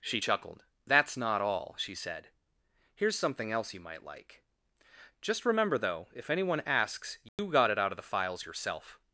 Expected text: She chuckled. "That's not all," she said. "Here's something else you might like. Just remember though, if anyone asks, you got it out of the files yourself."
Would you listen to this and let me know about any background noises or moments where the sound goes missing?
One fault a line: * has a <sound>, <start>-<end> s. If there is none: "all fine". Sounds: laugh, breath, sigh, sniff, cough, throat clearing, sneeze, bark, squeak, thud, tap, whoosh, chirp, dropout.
* has a dropout, 7.3-7.4 s